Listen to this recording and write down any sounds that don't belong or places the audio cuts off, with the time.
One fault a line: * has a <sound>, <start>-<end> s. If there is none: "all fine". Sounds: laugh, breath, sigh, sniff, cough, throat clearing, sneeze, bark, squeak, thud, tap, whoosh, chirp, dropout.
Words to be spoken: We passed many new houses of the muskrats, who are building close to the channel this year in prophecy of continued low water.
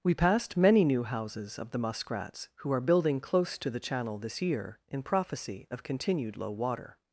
all fine